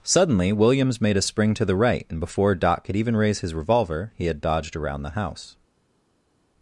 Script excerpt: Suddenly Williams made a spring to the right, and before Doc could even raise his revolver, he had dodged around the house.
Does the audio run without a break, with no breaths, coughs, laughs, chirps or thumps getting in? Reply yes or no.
yes